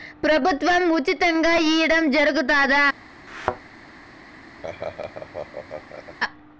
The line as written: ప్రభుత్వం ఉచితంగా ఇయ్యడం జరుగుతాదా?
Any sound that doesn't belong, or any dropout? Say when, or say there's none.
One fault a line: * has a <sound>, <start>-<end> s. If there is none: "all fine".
* has a thud, 3.3-3.6 s
* has a laugh, 4.6-6.2 s